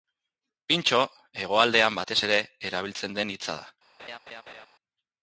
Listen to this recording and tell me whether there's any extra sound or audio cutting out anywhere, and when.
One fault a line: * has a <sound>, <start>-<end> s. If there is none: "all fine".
* has a laugh, 4.0-4.7 s